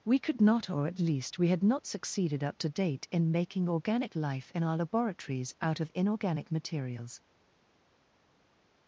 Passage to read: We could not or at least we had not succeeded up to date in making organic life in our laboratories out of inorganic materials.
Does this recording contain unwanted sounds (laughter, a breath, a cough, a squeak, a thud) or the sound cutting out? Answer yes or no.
no